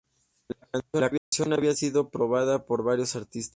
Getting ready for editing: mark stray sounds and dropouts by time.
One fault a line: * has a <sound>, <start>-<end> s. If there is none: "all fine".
* has a dropout, 1.2-1.3 s